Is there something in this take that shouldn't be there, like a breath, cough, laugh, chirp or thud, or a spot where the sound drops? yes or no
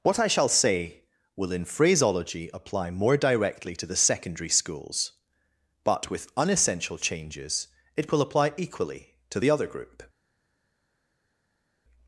no